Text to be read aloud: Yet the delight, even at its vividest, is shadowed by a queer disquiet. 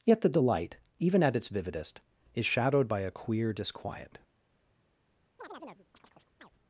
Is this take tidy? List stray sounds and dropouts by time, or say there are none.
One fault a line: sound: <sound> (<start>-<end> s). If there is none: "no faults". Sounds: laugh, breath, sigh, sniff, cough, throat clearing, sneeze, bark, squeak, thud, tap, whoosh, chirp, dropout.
sound: chirp (5.4-6.5 s)